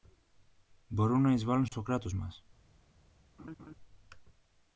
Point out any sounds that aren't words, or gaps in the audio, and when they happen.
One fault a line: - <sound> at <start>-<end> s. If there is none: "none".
- dropout at 1.7-1.7 s
- laugh at 3.4-3.7 s